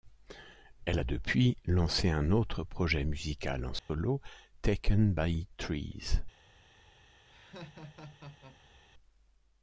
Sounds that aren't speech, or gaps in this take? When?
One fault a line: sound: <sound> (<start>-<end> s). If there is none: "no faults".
sound: dropout (3.8-3.9 s)
sound: laugh (7.2-8.8 s)